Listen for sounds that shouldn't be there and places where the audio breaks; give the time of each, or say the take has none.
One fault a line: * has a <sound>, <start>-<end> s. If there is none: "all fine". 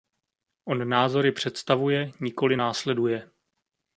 all fine